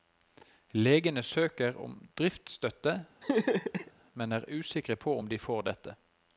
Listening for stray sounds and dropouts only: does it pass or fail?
fail